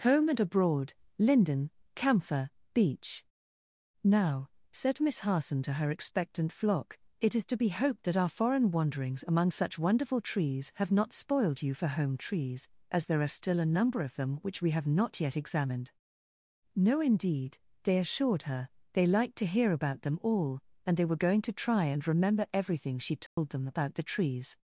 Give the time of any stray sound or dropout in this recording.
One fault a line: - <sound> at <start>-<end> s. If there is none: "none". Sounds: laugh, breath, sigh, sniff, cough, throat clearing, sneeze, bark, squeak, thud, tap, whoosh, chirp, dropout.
- dropout at 23.3-23.4 s